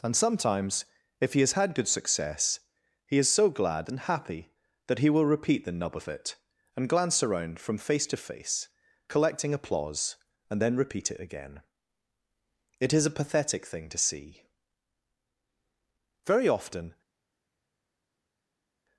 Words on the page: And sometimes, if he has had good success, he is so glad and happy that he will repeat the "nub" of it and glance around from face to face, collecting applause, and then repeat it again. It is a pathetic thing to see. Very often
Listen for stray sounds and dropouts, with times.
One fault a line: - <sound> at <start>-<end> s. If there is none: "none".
none